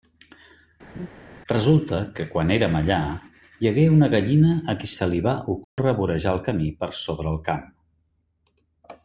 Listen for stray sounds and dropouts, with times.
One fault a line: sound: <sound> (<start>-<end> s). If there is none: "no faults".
sound: laugh (0.9-1.1 s)
sound: dropout (5.6-5.8 s)